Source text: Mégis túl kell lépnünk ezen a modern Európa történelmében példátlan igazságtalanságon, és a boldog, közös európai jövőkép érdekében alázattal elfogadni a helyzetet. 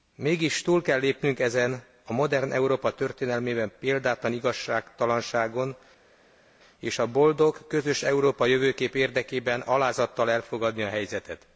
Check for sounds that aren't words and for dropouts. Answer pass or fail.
pass